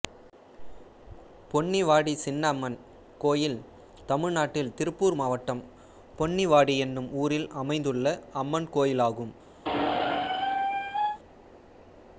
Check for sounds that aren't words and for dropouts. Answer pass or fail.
fail